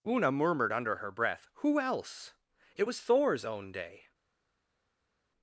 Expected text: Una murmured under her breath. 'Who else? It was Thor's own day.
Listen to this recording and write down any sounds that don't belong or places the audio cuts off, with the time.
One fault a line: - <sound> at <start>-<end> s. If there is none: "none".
none